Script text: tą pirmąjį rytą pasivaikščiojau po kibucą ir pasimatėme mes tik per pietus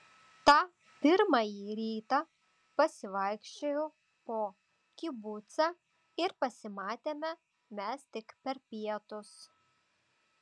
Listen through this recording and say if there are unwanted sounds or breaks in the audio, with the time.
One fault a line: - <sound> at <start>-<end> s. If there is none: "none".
none